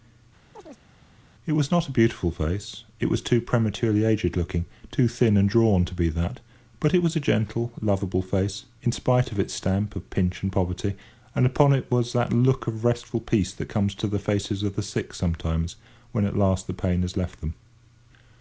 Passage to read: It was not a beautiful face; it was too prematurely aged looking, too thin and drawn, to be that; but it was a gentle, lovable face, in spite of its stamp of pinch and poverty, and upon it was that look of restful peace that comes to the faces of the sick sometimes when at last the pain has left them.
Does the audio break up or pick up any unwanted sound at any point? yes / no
yes